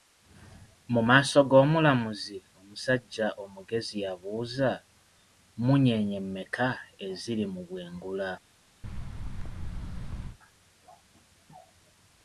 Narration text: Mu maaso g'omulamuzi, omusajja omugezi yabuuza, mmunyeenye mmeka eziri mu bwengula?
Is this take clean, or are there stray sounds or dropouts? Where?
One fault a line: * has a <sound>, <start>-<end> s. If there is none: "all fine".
* has a thud, 8.8-10.4 s